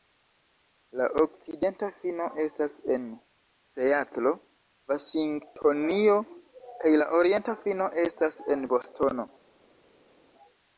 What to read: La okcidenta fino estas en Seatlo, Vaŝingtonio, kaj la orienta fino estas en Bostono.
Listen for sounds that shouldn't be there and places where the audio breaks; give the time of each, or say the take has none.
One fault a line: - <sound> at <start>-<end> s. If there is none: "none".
none